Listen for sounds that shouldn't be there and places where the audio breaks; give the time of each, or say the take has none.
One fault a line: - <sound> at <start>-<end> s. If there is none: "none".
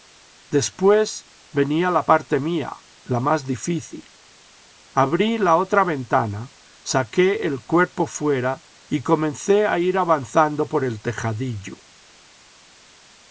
none